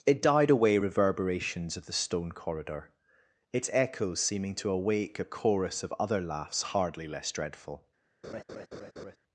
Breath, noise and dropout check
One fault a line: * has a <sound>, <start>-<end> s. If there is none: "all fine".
* has a laugh, 8.2-9.2 s